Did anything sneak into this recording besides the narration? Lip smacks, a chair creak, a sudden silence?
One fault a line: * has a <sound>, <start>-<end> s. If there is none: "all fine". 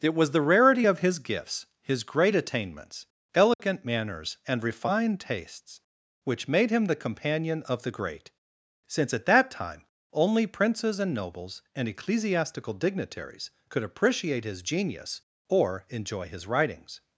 * has a dropout, 3.5-3.6 s